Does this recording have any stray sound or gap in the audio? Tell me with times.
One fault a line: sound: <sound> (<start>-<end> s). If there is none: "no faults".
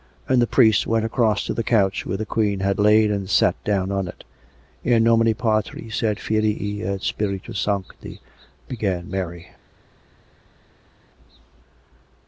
no faults